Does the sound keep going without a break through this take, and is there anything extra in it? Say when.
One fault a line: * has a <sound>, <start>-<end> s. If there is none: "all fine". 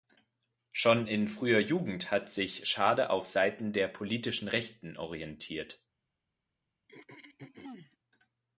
* has a throat clearing, 6.9-8.0 s